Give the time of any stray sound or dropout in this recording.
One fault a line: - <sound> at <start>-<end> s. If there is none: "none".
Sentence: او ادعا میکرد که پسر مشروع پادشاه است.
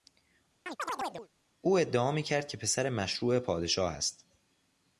- chirp at 0.7-1.3 s